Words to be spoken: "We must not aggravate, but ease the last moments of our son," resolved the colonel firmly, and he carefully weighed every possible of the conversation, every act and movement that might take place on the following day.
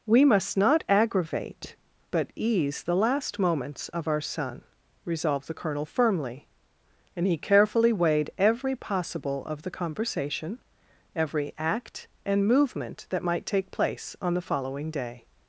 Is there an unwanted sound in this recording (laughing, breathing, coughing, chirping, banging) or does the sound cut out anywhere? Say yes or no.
no